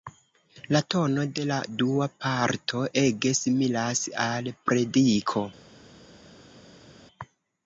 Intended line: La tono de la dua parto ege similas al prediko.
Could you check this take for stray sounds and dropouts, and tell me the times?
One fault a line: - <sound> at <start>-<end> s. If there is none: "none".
none